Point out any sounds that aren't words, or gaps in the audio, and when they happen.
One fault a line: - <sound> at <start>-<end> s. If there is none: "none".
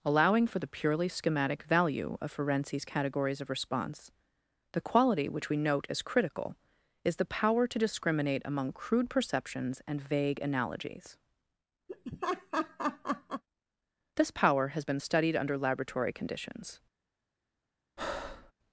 - laugh at 11.9-13.4 s
- breath at 18.0-18.5 s